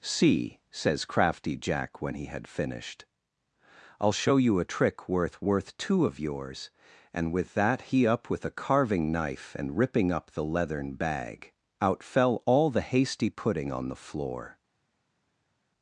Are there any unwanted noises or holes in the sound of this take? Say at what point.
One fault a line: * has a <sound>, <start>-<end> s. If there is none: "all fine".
all fine